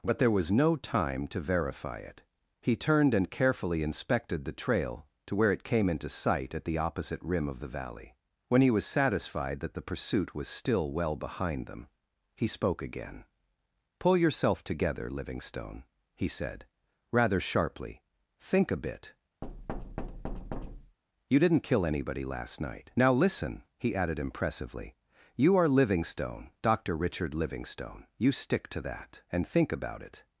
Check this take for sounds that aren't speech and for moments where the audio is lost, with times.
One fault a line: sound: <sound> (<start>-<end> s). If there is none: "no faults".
sound: thud (19.4-21.0 s)